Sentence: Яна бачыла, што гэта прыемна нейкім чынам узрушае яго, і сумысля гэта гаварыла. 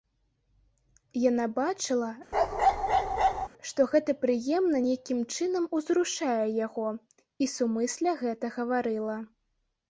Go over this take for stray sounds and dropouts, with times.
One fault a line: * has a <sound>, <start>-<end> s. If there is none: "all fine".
* has a bark, 2.3-3.5 s